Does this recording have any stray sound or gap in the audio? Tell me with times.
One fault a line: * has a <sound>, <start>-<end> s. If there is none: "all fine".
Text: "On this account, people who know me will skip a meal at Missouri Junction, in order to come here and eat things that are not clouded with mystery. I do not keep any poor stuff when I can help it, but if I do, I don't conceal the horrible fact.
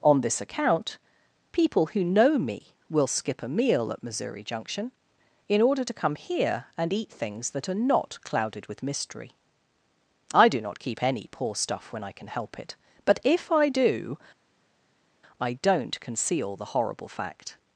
all fine